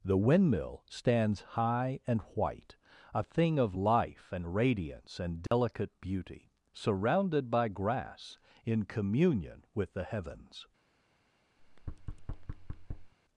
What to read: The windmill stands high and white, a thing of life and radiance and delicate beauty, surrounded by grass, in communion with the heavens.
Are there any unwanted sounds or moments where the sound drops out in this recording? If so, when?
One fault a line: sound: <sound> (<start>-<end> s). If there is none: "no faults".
sound: dropout (5.5-5.5 s)
sound: thud (11.6-13.1 s)